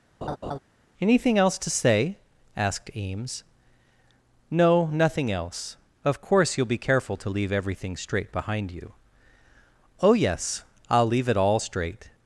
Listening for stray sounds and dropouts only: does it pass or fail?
fail